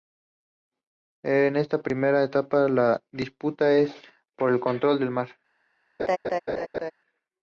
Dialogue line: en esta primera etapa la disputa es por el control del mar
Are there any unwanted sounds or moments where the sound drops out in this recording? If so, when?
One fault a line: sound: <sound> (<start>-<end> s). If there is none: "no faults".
sound: laugh (6.0-6.9 s)